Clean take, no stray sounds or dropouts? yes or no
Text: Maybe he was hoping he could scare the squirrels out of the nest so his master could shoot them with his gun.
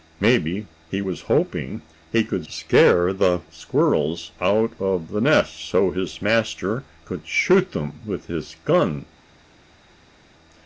yes